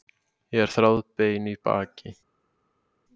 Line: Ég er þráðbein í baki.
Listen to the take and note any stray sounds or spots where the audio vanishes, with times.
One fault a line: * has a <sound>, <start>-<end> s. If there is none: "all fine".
all fine